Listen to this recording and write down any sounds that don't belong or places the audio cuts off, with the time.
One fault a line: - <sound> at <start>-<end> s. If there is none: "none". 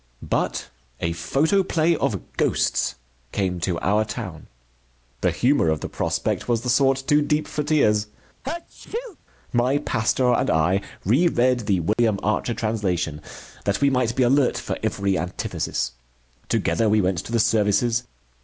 - sneeze at 8.4-9.2 s
- dropout at 11.9-12.0 s